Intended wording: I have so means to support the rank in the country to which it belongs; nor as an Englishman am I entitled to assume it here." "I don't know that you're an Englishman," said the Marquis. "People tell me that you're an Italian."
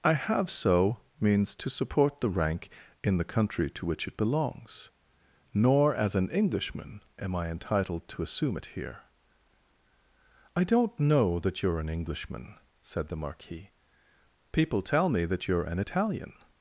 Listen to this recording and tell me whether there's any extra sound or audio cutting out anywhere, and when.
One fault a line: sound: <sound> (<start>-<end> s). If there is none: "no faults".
no faults